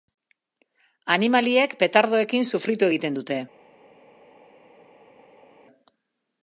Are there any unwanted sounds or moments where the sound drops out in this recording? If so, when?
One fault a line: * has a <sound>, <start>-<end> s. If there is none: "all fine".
all fine